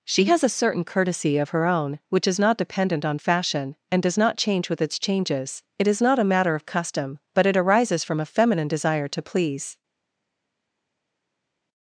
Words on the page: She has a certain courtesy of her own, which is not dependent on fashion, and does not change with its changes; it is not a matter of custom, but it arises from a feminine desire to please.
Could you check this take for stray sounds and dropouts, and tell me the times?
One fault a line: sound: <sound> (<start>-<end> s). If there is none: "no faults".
no faults